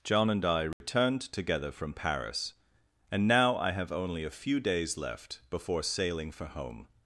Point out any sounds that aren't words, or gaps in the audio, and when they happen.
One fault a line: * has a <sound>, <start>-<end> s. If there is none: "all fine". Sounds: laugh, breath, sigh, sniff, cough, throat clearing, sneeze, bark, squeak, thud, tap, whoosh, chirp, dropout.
* has a dropout, 0.7-0.8 s